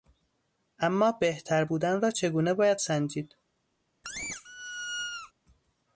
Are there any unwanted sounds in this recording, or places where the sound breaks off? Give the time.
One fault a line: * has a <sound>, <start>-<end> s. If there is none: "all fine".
* has a squeak, 4.0-5.3 s